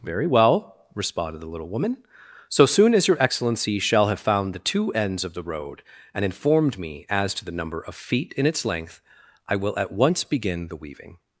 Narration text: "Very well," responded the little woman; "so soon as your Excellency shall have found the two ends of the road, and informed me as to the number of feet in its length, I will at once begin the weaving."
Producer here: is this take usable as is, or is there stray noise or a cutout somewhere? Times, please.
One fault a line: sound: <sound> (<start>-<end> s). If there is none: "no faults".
no faults